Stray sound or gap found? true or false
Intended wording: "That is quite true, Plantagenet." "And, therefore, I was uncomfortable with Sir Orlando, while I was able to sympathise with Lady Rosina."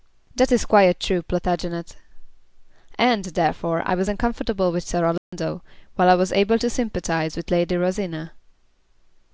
true